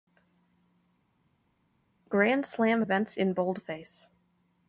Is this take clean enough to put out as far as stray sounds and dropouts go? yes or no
yes